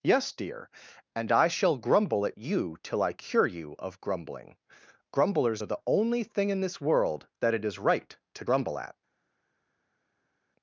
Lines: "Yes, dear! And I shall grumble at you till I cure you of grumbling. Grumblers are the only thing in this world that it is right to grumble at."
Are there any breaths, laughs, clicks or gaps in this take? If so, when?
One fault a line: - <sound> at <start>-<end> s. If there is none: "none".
none